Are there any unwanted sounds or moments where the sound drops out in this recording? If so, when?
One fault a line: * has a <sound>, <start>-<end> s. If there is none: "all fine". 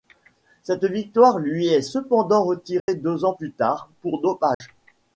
* has a dropout, 2.8-2.9 s
* has a dropout, 4.5-4.6 s